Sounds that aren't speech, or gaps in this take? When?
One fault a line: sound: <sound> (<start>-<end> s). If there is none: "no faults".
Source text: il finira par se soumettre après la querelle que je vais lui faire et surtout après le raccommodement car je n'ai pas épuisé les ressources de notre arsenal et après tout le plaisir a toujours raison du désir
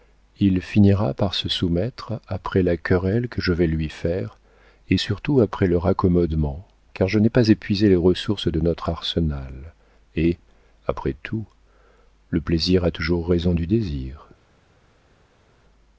no faults